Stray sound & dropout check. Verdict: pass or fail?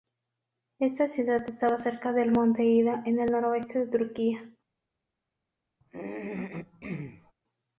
fail